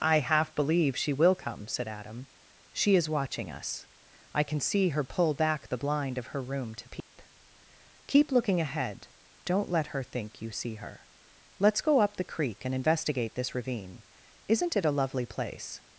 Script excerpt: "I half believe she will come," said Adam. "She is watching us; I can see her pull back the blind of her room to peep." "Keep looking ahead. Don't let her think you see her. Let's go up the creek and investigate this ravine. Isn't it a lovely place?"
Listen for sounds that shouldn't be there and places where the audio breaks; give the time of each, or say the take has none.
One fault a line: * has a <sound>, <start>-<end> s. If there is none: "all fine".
* has a dropout, 7.0-7.1 s